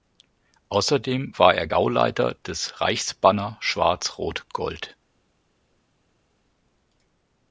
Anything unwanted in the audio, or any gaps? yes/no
no